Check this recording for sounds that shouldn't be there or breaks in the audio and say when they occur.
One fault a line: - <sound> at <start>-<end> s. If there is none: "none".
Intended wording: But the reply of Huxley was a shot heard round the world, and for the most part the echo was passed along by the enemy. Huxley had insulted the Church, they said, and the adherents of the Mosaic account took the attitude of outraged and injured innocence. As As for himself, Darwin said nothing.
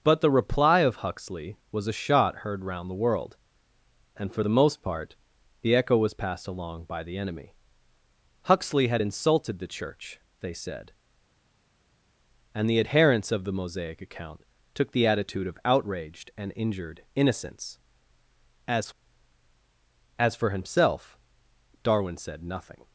none